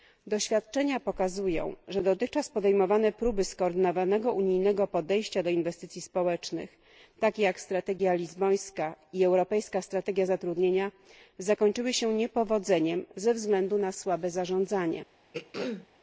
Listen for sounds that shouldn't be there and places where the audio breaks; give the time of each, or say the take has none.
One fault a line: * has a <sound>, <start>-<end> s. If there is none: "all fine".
* has a throat clearing, 15.3-15.9 s